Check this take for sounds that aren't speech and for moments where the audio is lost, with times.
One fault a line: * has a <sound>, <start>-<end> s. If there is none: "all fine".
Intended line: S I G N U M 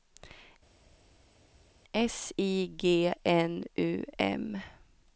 all fine